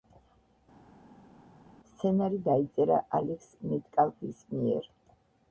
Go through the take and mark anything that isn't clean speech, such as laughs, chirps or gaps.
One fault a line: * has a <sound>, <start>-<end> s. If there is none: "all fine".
all fine